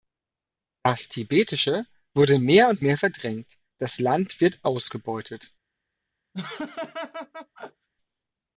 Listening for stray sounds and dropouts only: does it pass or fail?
fail